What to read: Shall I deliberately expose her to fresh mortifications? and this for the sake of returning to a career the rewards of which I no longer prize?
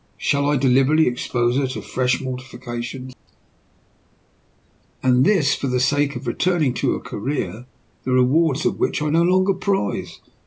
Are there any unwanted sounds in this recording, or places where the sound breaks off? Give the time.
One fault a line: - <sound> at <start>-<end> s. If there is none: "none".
none